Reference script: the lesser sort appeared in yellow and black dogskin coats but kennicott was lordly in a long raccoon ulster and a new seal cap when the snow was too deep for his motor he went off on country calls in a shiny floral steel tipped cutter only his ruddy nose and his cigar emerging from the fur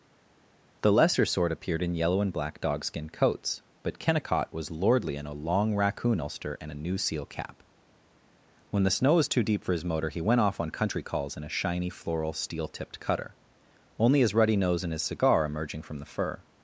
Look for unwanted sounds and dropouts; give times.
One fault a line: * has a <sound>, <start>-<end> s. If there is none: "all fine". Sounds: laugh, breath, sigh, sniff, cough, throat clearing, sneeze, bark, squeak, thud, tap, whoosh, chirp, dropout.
all fine